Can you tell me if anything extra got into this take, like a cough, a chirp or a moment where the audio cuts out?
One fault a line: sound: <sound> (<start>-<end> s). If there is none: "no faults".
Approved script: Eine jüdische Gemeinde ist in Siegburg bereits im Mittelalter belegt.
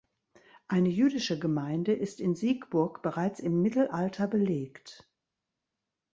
no faults